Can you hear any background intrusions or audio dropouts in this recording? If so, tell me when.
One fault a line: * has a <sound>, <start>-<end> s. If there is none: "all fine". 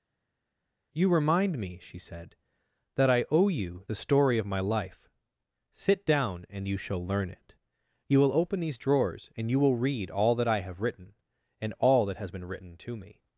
all fine